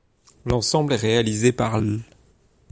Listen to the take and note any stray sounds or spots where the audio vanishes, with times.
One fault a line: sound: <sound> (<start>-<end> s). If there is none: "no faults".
no faults